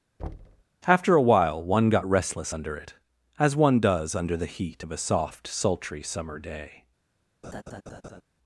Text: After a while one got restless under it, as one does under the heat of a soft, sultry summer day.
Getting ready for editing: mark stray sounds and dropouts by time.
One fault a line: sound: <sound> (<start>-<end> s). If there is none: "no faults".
sound: thud (0.2-0.6 s)
sound: laugh (7.4-8.2 s)